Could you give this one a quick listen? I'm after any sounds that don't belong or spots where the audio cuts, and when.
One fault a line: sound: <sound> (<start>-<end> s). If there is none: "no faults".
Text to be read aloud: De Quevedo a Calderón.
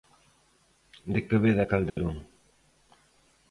sound: dropout (1.9-2.0 s)